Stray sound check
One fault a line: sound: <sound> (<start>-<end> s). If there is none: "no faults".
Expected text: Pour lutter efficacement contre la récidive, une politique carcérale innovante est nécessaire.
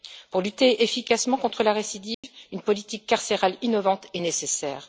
sound: dropout (2.1-2.2 s)